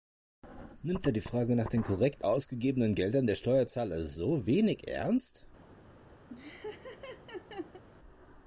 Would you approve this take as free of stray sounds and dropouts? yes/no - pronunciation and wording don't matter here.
no